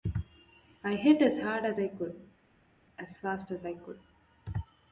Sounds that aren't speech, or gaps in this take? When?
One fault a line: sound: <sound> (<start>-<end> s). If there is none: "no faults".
no faults